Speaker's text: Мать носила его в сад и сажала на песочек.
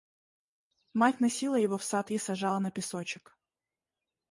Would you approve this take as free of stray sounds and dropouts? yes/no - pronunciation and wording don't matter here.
yes